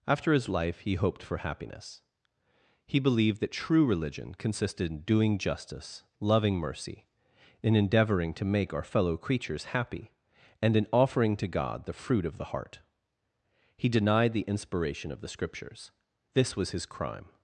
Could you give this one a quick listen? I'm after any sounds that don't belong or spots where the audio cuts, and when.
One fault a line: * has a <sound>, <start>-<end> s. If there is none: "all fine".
all fine